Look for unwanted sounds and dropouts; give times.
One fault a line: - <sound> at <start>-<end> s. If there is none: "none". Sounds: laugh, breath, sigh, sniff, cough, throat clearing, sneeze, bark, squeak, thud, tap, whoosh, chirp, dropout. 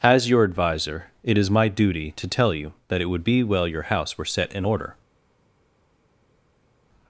none